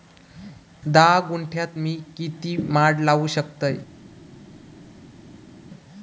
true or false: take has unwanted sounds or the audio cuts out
false